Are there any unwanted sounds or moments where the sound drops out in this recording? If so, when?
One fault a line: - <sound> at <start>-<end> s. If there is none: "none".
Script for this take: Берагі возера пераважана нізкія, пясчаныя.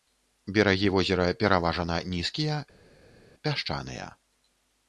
none